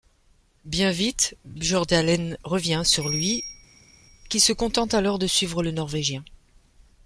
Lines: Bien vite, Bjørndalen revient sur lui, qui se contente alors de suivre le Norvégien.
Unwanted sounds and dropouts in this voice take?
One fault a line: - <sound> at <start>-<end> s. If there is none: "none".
none